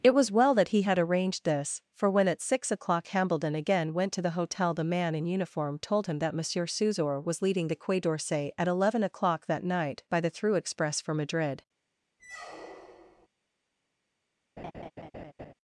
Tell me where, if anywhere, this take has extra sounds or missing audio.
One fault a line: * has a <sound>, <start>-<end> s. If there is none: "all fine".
* has a squeak, 12.2-13.3 s
* has a laugh, 14.6-15.5 s